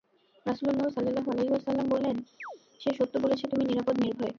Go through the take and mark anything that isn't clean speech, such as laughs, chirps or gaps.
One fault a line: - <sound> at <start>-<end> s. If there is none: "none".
- chirp at 2.4-2.6 s